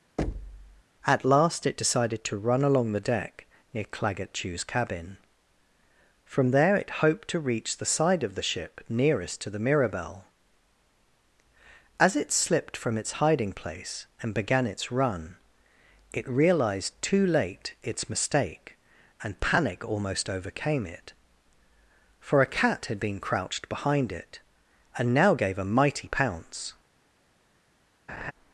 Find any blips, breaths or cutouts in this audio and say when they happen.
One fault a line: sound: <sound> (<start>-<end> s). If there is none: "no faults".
sound: thud (0.2-0.8 s)
sound: laugh (28.1-28.3 s)